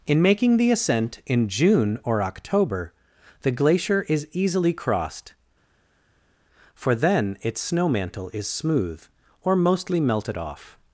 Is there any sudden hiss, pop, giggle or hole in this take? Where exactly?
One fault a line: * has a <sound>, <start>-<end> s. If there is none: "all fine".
all fine